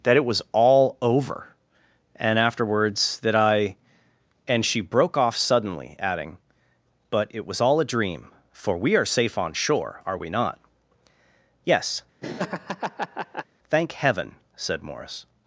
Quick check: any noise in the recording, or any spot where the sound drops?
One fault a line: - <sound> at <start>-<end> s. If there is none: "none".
- laugh at 12.2-13.5 s